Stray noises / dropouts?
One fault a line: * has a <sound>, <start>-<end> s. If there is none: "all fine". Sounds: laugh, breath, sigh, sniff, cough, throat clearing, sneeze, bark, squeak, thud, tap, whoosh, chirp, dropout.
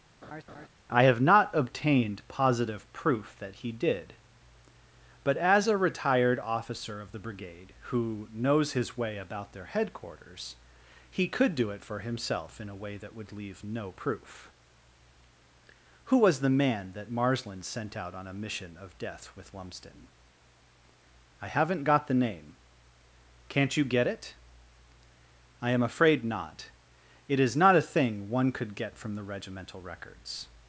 * has a laugh, 0.2-0.7 s